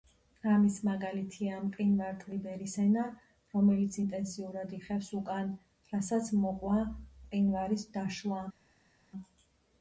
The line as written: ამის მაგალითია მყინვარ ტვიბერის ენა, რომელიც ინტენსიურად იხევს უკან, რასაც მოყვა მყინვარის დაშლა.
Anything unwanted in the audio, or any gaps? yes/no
no